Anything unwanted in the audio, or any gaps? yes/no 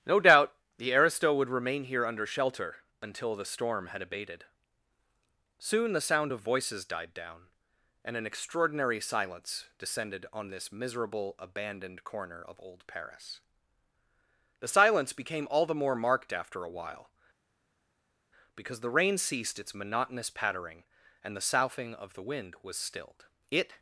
no